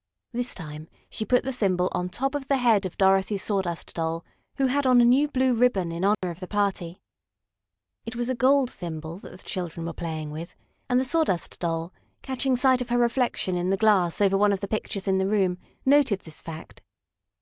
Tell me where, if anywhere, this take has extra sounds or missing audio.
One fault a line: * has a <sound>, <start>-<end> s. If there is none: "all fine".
* has a dropout, 6.1-6.2 s